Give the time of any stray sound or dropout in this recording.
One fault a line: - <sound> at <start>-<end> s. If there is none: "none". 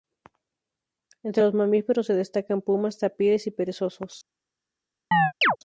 - chirp at 5.1-5.6 s